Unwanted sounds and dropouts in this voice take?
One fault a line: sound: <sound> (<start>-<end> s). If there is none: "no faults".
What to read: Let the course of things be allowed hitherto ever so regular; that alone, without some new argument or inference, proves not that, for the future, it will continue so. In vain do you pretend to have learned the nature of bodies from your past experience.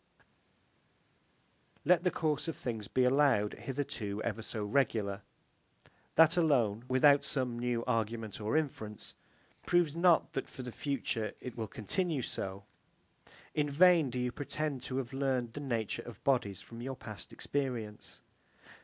no faults